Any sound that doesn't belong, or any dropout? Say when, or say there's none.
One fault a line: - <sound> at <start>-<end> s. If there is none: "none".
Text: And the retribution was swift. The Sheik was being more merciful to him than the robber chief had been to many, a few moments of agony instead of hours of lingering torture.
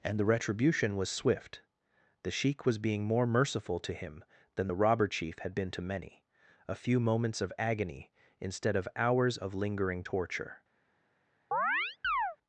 - chirp at 11.5-12.4 s